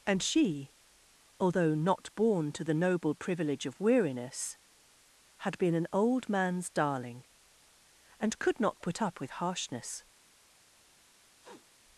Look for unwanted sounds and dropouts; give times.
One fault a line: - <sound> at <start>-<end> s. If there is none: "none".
- sniff at 11.4-11.7 s